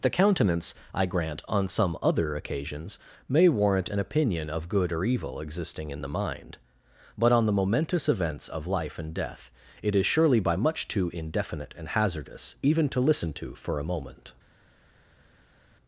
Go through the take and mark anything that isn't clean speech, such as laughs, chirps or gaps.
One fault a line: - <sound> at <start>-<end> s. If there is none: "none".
none